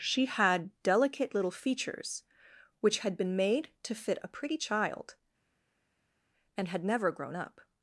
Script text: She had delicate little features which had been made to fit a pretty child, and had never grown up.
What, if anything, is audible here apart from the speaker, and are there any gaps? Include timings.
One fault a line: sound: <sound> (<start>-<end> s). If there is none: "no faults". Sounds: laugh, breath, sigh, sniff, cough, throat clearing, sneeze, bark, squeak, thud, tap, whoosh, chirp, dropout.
no faults